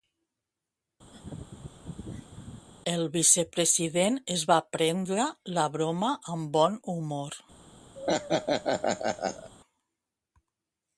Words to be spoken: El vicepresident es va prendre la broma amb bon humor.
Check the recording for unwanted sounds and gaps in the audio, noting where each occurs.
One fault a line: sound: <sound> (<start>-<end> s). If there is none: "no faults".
sound: laugh (1.1-2.7 s)
sound: laugh (7.9-9.5 s)